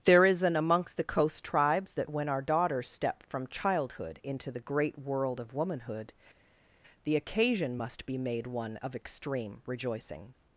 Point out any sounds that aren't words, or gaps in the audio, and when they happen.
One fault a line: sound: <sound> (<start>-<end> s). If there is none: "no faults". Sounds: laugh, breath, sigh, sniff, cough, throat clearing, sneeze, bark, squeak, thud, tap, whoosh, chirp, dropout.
no faults